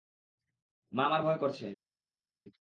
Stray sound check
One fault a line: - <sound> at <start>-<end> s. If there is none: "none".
none